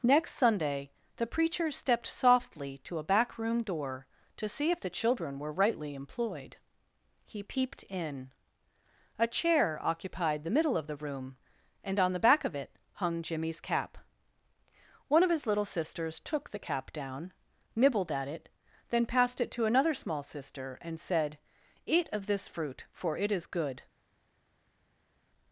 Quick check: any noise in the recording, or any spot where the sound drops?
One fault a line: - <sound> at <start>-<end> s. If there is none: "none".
none